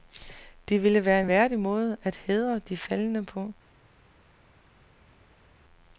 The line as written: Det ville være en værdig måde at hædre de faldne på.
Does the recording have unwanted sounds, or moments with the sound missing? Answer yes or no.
no